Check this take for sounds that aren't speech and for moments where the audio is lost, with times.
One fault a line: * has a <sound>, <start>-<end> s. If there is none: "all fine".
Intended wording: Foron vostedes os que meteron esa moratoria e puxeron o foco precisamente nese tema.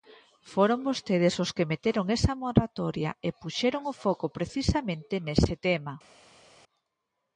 all fine